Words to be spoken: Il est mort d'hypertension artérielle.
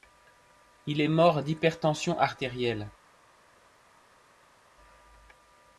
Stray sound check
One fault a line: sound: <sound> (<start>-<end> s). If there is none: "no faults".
no faults